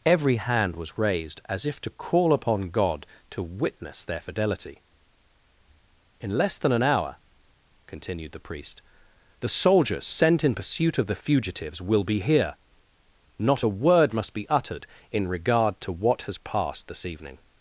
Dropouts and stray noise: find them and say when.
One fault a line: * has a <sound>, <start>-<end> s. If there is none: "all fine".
all fine